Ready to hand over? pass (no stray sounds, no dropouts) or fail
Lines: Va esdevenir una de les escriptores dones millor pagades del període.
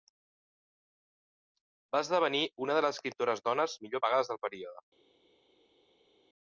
pass